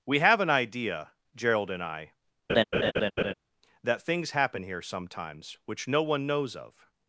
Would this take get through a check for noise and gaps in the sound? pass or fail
fail